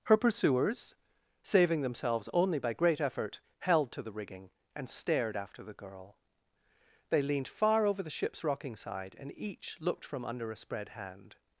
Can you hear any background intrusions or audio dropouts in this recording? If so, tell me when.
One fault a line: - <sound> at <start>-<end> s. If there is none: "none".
none